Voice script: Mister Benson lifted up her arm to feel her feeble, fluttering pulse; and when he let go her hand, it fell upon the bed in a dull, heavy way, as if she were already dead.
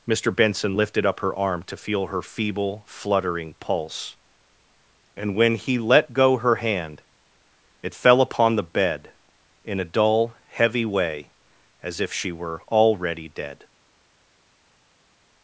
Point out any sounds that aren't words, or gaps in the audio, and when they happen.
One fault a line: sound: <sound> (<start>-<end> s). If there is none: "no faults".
no faults